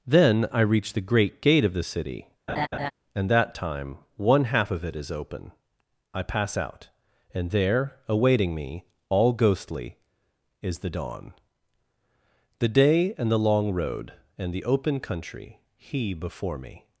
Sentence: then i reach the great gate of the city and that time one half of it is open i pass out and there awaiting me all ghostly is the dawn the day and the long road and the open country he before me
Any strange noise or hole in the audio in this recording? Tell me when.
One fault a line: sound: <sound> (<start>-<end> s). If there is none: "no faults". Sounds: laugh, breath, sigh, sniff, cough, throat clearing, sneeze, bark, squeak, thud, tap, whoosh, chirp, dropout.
sound: laugh (2.5-2.9 s)